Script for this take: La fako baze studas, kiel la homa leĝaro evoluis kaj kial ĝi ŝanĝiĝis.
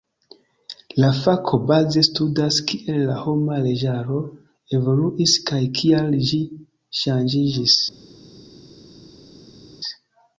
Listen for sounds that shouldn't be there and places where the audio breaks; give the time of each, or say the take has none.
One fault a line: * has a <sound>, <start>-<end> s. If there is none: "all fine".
all fine